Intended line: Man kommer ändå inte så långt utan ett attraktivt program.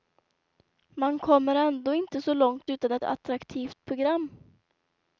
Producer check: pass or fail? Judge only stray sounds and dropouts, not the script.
pass